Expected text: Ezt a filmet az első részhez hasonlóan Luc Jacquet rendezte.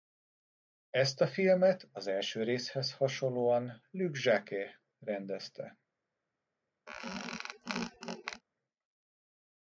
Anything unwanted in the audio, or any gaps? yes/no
yes